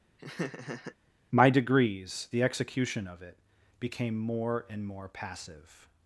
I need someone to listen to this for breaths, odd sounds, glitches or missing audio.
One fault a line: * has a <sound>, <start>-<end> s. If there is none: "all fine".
* has a laugh, 0.2-1.0 s